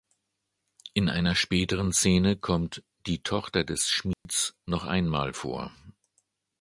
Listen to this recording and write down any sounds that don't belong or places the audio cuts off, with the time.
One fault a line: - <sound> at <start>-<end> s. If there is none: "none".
- dropout at 4.1-4.3 s